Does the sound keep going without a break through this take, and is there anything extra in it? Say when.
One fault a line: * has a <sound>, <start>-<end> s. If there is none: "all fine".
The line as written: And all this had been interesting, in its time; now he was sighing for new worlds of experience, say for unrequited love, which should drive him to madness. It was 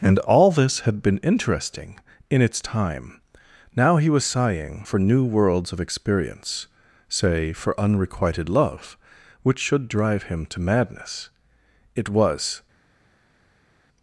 all fine